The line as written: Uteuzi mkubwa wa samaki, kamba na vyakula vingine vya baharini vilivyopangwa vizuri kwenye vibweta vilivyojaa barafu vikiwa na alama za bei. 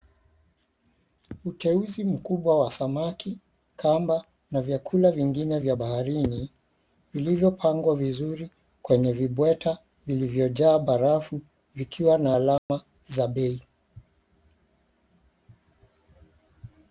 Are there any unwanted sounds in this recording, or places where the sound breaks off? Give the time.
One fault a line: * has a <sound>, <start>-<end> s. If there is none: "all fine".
* has a dropout, 12.6-12.7 s